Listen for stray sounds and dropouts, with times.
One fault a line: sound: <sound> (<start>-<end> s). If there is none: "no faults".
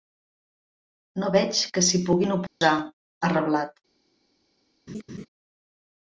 sound: dropout (2.5-2.6 s)
sound: laugh (4.9-5.3 s)